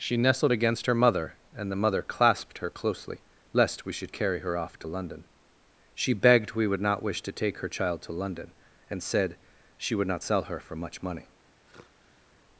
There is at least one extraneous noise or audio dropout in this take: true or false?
true